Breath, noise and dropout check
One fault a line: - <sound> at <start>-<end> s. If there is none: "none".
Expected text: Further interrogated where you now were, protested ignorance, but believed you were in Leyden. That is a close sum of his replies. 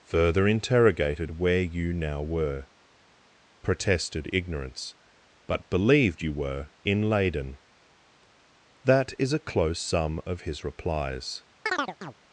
- chirp at 11.7-12.1 s